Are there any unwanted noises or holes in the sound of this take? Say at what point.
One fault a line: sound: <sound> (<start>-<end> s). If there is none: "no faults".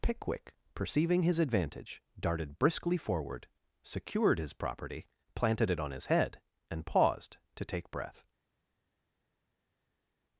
no faults